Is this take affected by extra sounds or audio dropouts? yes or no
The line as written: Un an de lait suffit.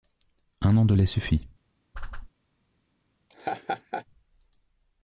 yes